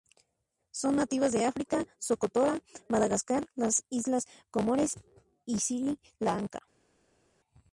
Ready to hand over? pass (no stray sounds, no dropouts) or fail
pass